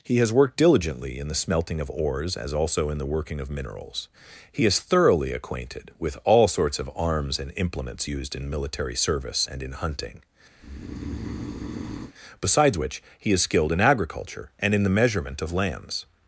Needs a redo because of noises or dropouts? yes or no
yes